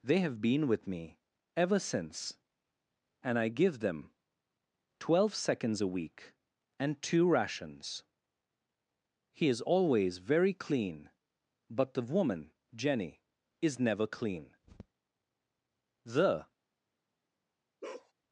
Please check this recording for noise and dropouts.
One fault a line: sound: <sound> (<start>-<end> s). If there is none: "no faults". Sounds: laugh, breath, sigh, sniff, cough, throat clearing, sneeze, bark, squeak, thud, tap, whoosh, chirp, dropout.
sound: bark (17.8-18.1 s)